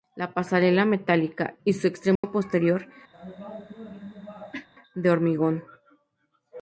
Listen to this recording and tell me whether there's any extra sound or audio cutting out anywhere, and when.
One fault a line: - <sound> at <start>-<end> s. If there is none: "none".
- dropout at 2.2-2.2 s
- cough at 3.1-4.7 s